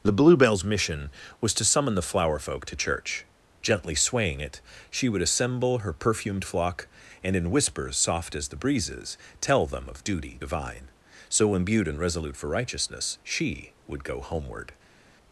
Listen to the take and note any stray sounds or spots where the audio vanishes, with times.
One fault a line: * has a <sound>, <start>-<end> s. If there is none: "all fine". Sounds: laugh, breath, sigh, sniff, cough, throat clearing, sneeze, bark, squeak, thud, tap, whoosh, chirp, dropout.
all fine